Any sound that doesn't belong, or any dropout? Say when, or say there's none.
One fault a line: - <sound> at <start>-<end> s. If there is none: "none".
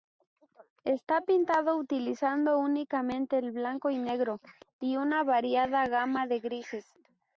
none